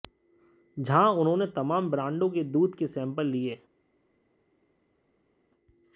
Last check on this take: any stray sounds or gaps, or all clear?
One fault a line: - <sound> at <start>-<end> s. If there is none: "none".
none